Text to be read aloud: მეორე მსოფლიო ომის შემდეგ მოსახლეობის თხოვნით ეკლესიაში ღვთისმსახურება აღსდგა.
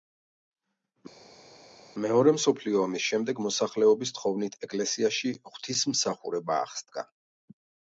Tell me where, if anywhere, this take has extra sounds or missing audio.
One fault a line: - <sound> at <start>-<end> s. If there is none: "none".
none